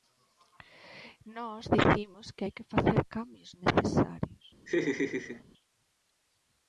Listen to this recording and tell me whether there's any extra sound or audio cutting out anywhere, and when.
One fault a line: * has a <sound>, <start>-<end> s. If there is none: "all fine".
* has a laugh, 4.7-5.4 s